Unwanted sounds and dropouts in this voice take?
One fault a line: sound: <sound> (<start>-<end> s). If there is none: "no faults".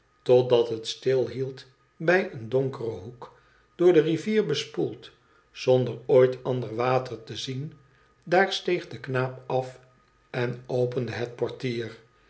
no faults